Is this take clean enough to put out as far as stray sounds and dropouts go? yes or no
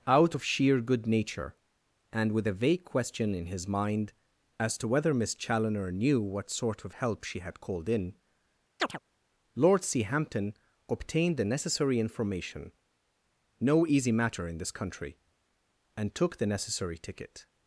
no